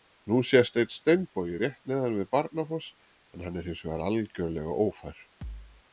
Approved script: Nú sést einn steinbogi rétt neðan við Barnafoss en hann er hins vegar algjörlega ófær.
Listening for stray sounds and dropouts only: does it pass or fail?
fail